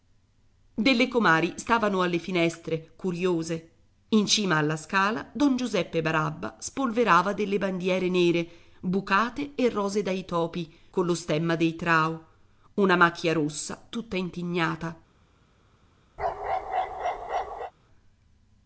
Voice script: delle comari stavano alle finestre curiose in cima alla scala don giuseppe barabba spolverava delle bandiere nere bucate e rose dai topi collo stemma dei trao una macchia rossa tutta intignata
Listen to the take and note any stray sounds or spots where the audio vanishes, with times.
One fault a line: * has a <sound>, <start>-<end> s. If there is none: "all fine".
* has a bark, 16.2-17.7 s